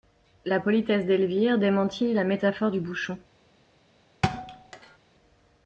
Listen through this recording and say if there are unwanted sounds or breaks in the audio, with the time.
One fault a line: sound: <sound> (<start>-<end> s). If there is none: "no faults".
sound: thud (4.2-5.0 s)